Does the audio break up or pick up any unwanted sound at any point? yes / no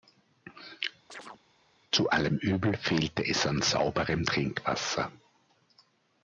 yes